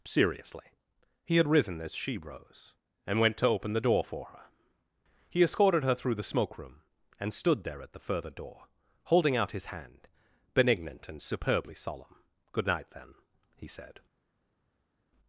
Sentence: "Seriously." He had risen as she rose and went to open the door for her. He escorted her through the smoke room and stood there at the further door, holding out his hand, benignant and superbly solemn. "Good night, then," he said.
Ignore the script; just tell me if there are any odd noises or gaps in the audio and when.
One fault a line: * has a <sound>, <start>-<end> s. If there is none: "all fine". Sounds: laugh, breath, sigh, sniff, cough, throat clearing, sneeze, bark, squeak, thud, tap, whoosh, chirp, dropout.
all fine